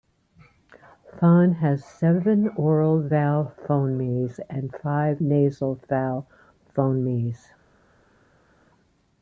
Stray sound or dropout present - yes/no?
no